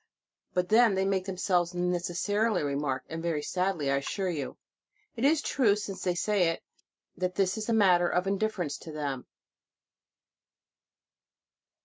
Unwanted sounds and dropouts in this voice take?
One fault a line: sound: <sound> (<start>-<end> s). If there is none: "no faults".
no faults